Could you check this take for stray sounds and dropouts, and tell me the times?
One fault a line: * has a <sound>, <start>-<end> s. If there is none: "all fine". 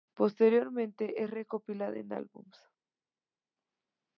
all fine